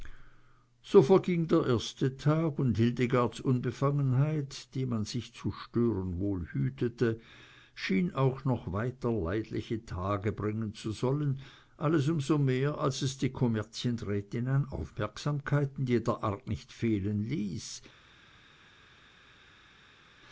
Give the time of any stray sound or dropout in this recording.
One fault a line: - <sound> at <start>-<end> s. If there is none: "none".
none